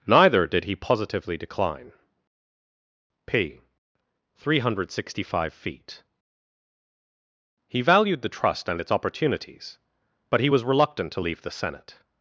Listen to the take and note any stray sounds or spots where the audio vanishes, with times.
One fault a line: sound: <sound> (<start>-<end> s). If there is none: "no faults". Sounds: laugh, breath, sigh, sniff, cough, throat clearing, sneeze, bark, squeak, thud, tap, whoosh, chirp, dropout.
no faults